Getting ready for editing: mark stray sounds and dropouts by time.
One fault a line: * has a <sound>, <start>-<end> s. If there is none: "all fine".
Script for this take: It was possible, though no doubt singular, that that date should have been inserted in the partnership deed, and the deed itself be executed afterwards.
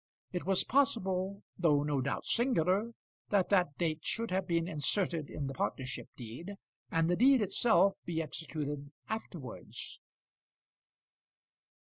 all fine